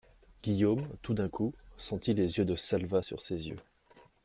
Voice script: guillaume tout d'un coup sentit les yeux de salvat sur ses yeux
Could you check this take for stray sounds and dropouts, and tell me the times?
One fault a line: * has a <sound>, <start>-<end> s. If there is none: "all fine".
all fine